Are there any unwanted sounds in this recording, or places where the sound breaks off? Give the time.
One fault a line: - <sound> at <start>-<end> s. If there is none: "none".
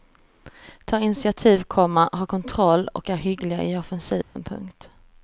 - dropout at 4.2-4.4 s